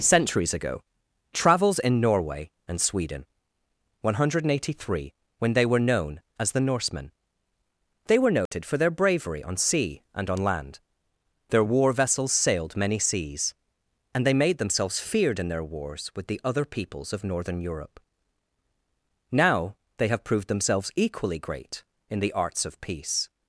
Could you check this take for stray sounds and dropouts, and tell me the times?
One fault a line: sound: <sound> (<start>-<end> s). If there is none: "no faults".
sound: dropout (8.5-8.5 s)